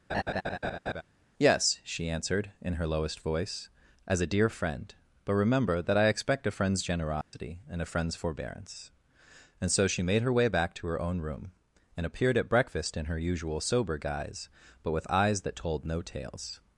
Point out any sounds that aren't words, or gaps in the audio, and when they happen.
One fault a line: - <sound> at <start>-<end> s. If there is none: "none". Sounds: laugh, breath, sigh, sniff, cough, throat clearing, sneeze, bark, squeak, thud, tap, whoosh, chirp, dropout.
- laugh at 0.1-1.0 s
- dropout at 7.2-7.3 s